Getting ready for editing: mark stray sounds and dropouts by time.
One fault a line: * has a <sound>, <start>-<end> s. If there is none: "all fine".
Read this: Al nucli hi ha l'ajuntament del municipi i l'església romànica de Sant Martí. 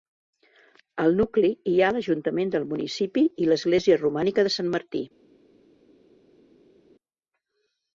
all fine